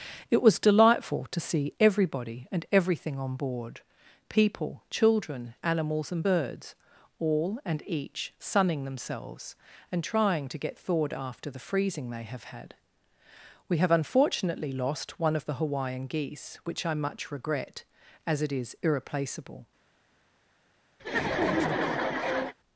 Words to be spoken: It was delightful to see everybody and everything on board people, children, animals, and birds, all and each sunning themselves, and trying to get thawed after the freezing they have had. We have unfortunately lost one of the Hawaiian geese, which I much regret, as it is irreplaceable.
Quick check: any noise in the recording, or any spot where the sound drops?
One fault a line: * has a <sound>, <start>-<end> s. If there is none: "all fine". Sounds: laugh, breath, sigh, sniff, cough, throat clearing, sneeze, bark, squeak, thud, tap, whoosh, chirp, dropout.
* has a laugh, 21.0-22.5 s